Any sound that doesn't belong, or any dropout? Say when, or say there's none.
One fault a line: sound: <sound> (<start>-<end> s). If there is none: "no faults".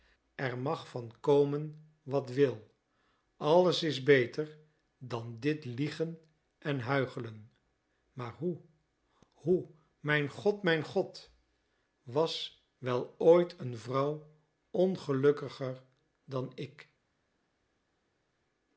no faults